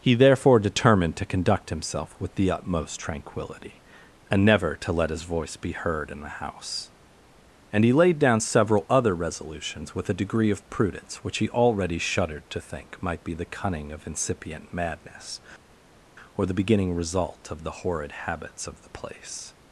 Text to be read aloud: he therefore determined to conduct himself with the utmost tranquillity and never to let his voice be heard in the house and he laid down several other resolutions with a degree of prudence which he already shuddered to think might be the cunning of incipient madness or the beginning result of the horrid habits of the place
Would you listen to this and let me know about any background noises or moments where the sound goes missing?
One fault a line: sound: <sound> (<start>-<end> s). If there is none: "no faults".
no faults